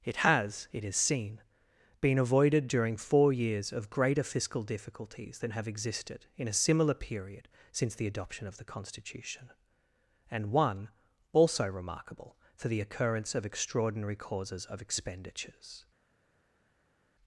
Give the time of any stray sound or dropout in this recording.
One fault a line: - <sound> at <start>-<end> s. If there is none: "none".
none